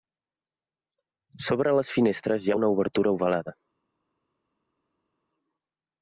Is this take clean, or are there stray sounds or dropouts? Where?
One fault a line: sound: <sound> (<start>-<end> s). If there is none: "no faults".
no faults